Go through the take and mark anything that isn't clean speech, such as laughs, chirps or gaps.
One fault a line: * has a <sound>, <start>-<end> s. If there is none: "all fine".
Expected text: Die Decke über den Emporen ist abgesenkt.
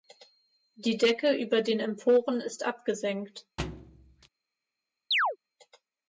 * has a thud, 3.6-4.3 s
* has a chirp, 5.1-5.4 s